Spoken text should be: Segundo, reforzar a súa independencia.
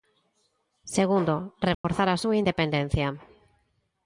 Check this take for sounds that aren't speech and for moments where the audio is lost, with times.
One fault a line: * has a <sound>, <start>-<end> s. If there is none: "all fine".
* has a dropout, 1.7-1.8 s